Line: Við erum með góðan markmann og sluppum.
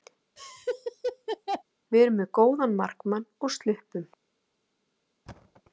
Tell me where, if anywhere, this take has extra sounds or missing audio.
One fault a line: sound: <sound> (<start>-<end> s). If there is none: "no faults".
sound: laugh (0.4-1.6 s)
sound: thud (5.3-5.6 s)